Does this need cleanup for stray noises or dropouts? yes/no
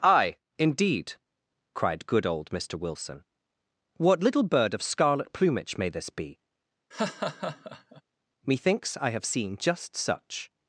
yes